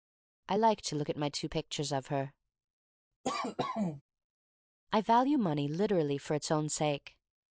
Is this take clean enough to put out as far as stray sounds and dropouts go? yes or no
no